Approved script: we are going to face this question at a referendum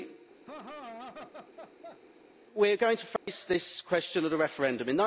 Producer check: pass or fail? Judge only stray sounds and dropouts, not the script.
fail